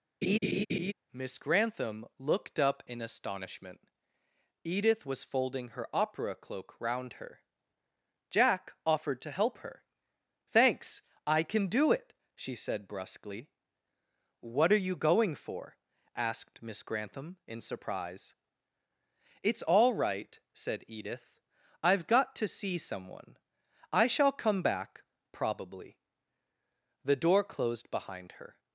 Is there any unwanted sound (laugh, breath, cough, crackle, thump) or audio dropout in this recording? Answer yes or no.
yes